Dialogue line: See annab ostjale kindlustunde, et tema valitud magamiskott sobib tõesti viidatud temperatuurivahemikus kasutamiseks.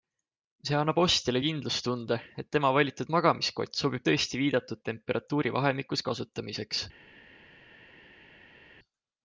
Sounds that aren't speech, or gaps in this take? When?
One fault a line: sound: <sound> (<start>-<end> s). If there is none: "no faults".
no faults